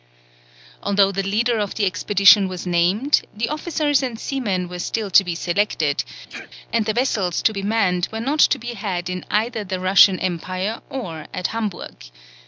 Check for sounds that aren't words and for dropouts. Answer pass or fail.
fail